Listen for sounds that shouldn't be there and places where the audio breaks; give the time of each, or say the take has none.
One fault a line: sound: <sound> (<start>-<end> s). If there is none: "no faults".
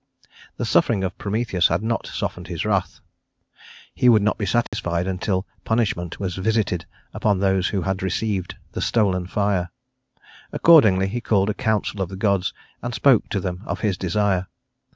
sound: dropout (4.7-4.7 s)